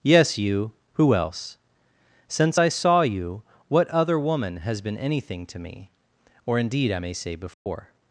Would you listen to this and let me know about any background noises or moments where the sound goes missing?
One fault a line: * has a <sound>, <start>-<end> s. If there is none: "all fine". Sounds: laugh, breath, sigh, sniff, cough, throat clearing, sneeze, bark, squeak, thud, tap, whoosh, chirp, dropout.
* has a dropout, 7.5-7.7 s